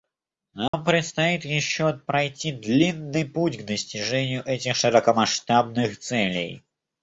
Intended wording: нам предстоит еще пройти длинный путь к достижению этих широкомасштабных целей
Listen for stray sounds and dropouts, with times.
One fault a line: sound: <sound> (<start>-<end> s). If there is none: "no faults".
sound: dropout (0.7-0.7 s)